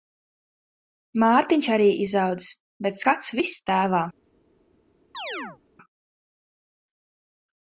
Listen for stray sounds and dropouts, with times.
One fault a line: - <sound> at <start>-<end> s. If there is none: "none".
- chirp at 5.1-5.6 s